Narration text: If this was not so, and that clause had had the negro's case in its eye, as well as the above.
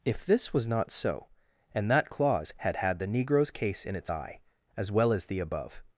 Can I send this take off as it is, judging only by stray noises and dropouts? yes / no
yes